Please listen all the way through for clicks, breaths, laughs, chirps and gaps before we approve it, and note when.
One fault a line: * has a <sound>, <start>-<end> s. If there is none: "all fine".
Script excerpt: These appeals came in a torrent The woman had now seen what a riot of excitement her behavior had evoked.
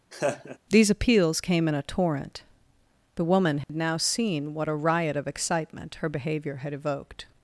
* has a laugh, 0.1-0.6 s
* has a dropout, 3.6-3.7 s